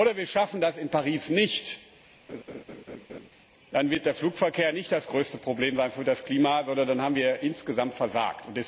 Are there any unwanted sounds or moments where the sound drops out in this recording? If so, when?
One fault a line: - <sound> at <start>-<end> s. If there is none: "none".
- laugh at 2.3-3.3 s